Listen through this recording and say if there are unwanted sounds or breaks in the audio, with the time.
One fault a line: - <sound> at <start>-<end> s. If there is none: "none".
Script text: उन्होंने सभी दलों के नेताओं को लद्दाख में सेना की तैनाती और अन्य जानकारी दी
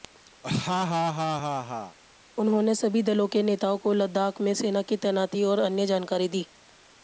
- laugh at 0.4-2.0 s